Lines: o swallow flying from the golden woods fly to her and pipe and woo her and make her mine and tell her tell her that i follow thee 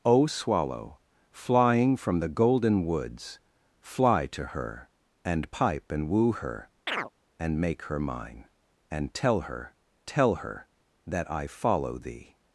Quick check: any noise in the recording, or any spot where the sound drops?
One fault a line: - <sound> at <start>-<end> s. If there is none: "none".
- chirp at 6.9-7.1 s